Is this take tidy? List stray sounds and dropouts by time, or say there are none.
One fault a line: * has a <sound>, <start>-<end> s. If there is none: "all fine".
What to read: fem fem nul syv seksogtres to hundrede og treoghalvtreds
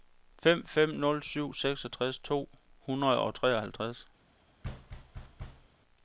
* has a thud, 4.6-5.7 s